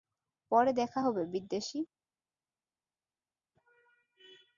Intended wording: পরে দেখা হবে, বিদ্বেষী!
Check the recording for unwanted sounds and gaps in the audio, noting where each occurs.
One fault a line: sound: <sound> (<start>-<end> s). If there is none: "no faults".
no faults